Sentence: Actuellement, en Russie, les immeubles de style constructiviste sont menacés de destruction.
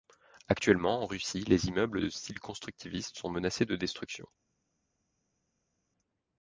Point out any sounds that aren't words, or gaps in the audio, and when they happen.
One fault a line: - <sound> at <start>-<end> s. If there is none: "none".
none